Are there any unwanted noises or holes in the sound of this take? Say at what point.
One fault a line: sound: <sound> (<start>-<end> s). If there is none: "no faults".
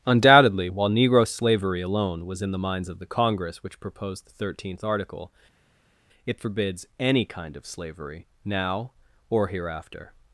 no faults